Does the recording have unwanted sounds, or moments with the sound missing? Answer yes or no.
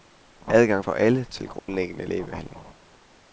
yes